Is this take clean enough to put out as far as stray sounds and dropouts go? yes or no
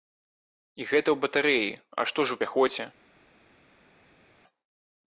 yes